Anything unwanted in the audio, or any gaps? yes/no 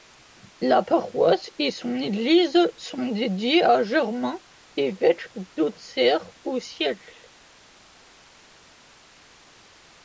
no